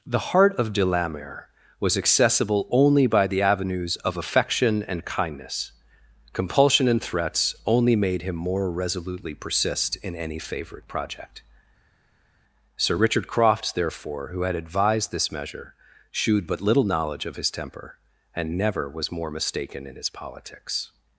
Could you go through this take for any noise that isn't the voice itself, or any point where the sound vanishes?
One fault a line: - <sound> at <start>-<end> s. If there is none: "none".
none